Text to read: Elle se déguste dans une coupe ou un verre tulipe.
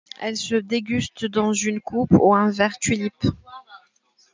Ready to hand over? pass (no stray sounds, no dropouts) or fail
pass